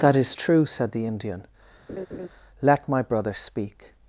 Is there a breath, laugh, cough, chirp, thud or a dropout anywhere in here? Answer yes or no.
yes